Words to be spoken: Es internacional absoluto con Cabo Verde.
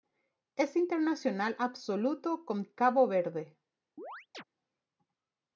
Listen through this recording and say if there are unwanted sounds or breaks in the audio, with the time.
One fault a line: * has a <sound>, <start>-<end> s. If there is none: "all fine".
* has a chirp, 4.0-4.4 s